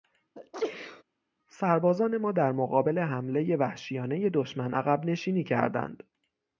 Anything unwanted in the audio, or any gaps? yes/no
yes